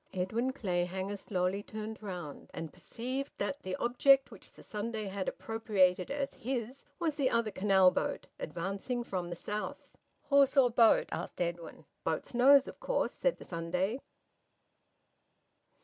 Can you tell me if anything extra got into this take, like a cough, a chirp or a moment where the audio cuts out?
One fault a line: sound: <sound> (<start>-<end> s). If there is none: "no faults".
no faults